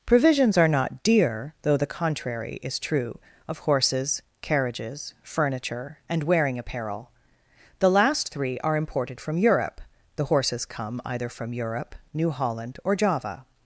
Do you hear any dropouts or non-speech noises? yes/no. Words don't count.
no